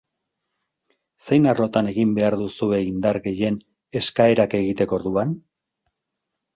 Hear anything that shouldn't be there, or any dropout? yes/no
no